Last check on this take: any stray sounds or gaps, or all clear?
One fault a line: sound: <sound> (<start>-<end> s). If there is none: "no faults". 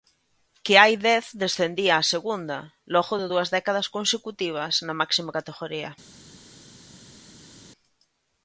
no faults